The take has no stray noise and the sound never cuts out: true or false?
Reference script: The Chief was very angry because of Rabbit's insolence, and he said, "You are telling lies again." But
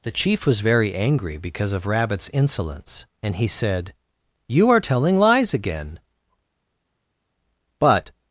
true